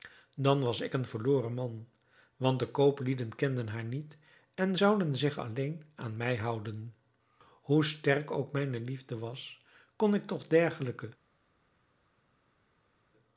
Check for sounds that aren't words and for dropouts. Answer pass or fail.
pass